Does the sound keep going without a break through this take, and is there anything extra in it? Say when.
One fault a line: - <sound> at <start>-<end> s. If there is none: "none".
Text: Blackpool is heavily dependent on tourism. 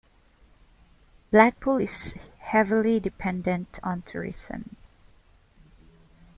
none